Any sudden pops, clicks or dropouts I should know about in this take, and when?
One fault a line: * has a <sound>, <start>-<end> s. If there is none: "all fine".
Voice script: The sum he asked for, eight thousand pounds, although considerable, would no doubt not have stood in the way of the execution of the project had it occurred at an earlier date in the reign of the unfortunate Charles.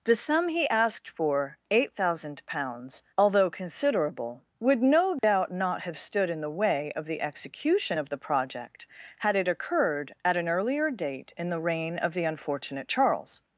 * has a dropout, 5.2-5.2 s